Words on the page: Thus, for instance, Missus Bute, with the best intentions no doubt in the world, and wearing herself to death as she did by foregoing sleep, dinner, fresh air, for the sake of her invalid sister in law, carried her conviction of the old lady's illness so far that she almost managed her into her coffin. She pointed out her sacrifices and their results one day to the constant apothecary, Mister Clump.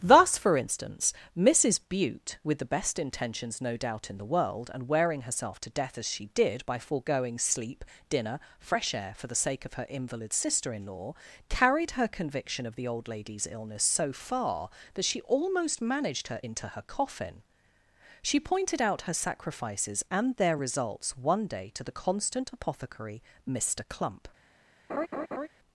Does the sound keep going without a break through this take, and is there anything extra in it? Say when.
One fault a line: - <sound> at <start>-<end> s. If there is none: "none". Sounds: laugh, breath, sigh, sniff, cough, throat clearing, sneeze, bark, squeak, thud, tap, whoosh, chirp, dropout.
- laugh at 24.9-25.5 s